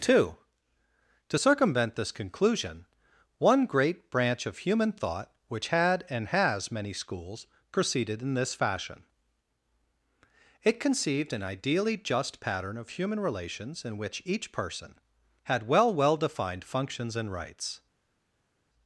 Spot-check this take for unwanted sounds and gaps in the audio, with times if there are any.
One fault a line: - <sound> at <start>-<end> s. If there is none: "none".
none